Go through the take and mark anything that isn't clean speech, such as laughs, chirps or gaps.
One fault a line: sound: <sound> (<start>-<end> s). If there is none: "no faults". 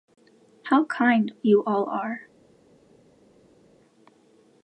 no faults